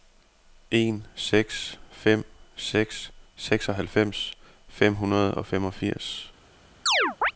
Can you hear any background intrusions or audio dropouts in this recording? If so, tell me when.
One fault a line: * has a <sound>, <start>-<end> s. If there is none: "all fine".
* has a chirp, 6.9-7.3 s